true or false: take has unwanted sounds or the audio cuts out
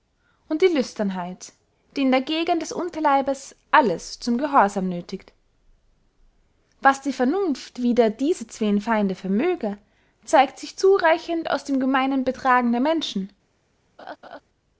true